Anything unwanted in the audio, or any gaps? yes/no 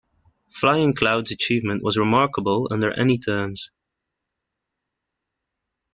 no